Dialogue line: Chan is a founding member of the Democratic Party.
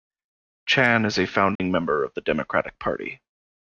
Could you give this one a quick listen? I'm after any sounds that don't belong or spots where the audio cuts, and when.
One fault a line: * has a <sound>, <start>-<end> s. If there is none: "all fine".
* has a dropout, 1.6-1.6 s